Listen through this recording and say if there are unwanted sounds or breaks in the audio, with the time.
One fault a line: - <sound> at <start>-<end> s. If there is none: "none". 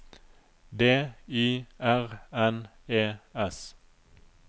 none